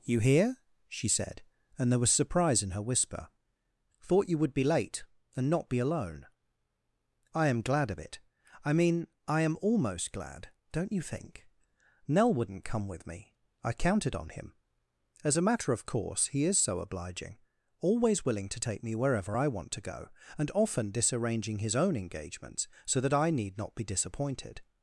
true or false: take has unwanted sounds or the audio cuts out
false